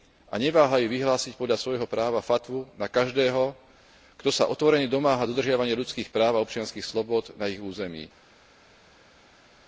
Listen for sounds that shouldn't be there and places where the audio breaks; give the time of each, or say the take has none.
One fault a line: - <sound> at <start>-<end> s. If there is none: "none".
none